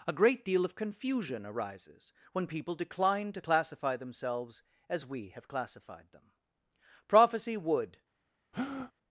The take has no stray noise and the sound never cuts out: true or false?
false